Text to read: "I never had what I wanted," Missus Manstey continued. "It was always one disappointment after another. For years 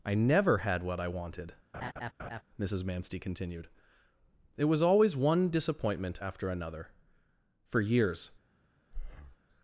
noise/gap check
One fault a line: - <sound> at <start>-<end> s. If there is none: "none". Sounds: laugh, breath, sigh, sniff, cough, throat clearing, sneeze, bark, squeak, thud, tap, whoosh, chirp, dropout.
- laugh at 1.7-2.4 s
- breath at 8.9-9.4 s